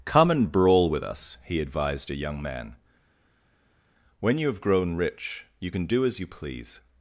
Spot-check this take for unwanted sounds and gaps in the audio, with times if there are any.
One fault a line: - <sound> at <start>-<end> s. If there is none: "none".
none